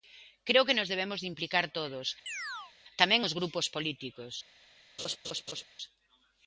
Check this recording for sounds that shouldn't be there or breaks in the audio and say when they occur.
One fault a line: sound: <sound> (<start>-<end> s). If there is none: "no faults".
sound: chirp (2.3-2.7 s)
sound: laugh (5.0-5.6 s)